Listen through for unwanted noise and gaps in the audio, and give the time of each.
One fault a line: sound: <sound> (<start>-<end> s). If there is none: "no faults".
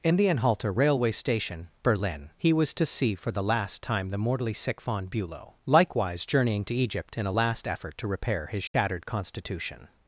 sound: dropout (8.7-8.7 s)